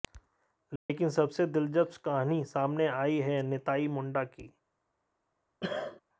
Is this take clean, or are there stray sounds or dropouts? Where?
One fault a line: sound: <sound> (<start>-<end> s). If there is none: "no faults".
sound: dropout (0.8-0.9 s)
sound: cough (5.6-6.0 s)